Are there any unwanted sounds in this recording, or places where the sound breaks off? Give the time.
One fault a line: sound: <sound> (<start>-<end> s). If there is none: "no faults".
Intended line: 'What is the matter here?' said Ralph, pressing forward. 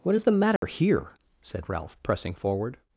sound: dropout (0.6-0.6 s)